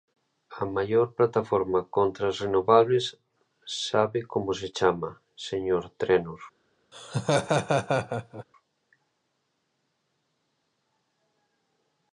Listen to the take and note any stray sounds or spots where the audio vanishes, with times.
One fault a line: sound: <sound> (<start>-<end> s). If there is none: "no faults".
sound: laugh (6.9-8.4 s)